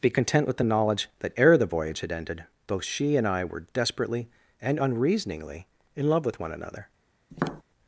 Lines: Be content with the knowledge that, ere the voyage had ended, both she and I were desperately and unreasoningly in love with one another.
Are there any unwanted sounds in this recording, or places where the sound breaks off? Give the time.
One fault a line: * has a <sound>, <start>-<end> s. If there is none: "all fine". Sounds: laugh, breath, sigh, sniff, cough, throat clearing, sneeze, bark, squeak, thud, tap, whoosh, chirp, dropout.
* has a tap, 7.3-7.6 s